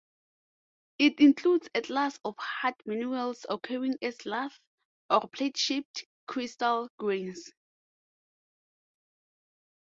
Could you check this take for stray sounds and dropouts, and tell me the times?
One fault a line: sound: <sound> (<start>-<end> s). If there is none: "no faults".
no faults